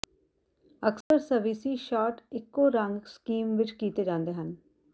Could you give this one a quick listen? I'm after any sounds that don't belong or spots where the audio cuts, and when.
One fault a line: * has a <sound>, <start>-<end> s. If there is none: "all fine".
* has a dropout, 1.0-1.1 s